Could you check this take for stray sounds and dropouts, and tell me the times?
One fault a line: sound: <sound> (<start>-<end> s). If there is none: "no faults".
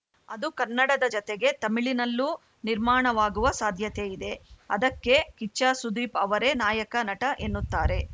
no faults